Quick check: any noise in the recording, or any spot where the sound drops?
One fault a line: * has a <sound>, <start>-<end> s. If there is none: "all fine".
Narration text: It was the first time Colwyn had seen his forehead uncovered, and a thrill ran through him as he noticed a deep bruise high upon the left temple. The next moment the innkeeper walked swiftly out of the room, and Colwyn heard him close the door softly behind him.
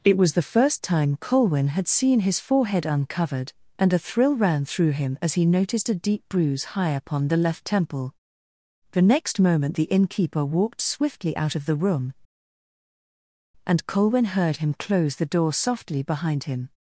all fine